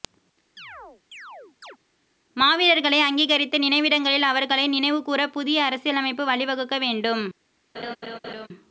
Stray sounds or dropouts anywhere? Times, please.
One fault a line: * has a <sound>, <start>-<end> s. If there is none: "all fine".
* has a chirp, 0.6-1.8 s
* has a laugh, 7.7-8.5 s